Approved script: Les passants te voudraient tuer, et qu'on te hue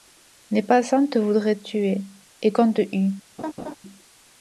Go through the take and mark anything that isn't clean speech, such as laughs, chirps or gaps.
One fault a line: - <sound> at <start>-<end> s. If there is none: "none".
- laugh at 3.4-3.8 s